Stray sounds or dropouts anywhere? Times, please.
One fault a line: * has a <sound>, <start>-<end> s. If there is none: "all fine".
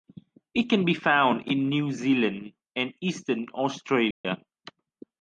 * has a dropout, 4.1-4.2 s